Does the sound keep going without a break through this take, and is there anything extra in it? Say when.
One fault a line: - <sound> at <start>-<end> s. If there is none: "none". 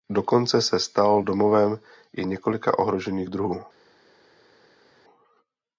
none